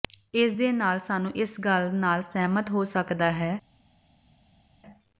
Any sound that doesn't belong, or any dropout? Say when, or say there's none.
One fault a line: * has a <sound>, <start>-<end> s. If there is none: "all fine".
all fine